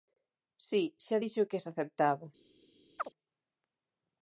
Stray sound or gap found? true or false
true